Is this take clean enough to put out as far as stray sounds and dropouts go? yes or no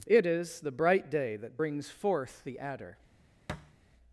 no